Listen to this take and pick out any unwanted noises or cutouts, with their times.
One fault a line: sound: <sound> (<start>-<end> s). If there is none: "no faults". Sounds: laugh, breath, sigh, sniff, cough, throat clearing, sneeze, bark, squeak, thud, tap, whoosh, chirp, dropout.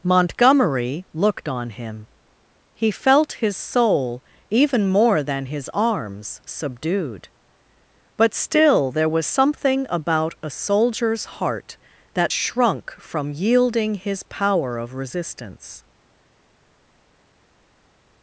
no faults